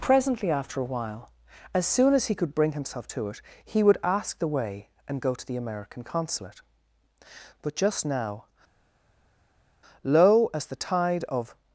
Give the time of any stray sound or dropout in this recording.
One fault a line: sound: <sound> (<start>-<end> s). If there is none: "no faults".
no faults